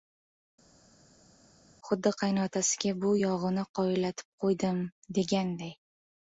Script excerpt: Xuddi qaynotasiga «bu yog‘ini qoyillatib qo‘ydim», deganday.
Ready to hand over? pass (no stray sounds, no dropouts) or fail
pass